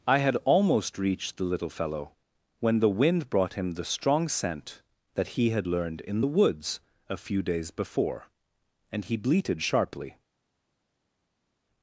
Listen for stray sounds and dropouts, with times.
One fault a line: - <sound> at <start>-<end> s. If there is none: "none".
none